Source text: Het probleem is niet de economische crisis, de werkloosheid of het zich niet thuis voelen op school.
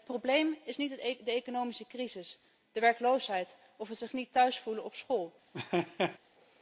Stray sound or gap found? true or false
true